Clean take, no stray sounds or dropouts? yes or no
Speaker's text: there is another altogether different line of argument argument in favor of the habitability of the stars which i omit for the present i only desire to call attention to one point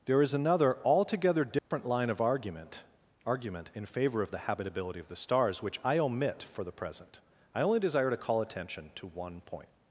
no